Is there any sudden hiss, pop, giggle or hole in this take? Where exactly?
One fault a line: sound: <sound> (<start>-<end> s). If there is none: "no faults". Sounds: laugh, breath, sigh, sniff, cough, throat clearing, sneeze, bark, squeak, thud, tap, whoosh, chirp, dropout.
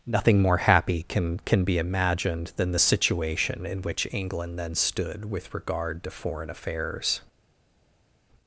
no faults